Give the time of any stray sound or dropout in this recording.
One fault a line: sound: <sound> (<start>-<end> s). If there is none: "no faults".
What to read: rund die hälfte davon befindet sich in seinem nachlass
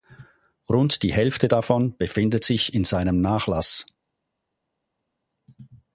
no faults